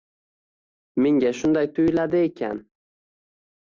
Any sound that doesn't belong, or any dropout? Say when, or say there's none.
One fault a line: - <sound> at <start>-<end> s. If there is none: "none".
none